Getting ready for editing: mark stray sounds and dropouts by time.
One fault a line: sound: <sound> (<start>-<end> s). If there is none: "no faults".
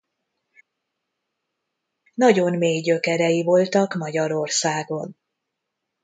no faults